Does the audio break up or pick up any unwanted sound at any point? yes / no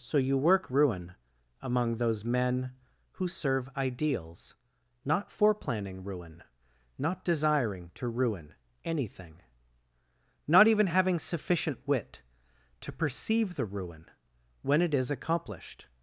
no